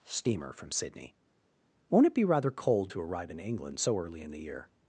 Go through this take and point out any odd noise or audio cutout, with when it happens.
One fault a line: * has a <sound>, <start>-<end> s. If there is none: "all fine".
all fine